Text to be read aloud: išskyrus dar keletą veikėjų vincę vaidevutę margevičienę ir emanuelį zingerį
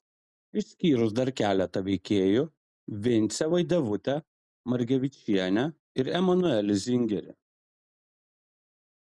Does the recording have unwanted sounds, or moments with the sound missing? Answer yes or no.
no